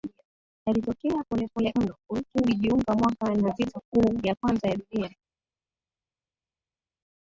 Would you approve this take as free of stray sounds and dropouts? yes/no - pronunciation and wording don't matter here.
yes